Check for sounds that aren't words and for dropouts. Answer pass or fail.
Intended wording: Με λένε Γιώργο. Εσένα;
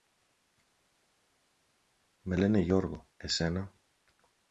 pass